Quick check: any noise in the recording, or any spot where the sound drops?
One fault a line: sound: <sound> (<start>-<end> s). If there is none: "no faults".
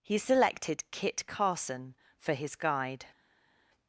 no faults